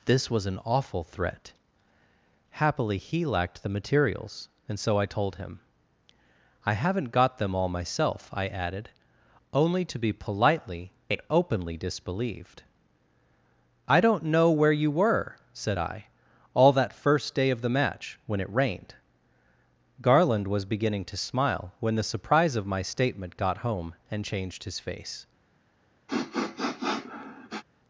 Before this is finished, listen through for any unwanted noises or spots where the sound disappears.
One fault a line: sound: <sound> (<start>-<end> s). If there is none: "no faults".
sound: sniff (26.1-27.6 s)